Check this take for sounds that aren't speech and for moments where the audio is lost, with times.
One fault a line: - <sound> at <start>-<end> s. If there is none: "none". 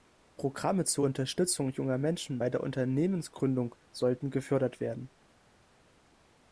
none